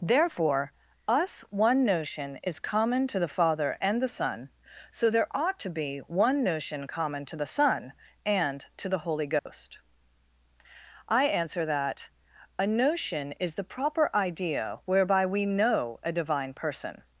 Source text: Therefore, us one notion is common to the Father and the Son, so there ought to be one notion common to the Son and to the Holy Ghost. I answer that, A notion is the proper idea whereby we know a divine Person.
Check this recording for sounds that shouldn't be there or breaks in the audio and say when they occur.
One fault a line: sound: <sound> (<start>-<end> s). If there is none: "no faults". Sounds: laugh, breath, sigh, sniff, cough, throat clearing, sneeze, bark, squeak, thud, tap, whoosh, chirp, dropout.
sound: dropout (9.4-9.5 s)